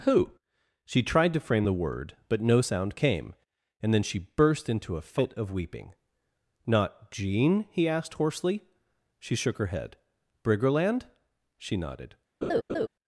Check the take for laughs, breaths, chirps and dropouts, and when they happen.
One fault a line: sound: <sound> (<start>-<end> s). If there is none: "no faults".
sound: laugh (12.4-12.9 s)